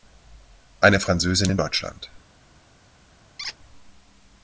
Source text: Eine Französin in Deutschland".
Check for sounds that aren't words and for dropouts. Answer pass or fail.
fail